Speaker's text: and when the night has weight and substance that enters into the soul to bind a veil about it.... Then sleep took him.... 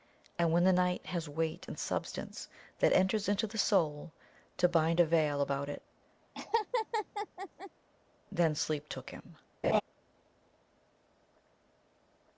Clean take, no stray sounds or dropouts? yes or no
no